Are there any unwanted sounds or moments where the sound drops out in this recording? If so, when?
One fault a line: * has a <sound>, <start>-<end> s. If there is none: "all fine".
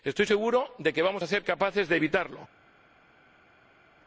all fine